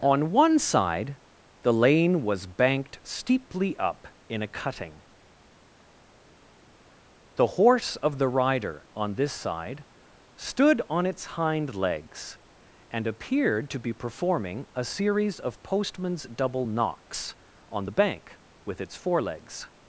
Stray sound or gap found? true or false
false